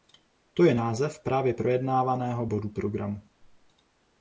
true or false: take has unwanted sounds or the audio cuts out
false